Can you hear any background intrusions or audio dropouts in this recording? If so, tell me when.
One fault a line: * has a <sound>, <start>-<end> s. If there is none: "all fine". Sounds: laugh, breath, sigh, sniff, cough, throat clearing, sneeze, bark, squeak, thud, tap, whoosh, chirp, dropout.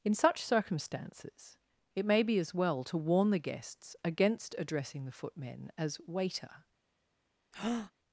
* has a breath, 7.5-7.9 s